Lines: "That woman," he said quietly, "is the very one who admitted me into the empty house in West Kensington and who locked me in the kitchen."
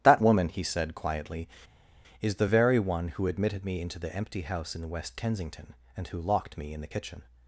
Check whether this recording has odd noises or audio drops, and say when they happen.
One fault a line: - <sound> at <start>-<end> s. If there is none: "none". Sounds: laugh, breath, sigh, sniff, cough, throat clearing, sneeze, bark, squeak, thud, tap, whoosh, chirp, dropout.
none